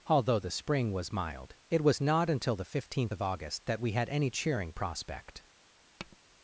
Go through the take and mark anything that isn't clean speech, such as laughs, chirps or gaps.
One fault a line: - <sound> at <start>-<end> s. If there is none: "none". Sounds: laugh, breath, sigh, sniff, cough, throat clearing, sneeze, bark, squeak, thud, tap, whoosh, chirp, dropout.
- tap at 6.0-6.2 s